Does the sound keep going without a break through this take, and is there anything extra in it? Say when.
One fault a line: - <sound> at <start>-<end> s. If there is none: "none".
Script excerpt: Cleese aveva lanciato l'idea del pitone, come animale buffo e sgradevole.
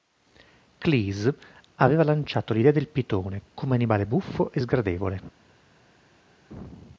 none